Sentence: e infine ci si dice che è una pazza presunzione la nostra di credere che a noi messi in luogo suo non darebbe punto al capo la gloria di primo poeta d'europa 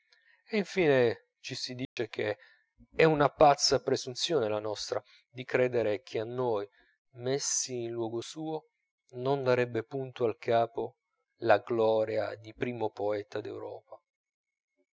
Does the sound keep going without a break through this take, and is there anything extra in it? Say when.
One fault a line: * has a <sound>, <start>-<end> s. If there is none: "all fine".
* has a dropout, 1.8-2.0 s